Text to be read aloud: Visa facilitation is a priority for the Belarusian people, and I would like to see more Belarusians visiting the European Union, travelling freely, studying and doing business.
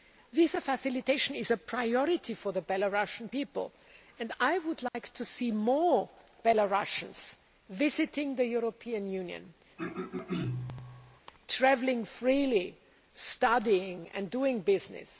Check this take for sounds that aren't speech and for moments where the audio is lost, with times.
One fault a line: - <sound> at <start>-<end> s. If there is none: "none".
- dropout at 4.9-4.9 s
- throat clearing at 9.8-11.2 s